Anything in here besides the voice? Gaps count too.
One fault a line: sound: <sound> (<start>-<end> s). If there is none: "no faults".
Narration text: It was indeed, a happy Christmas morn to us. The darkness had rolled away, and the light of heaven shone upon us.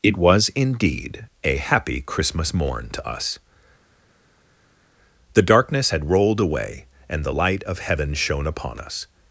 no faults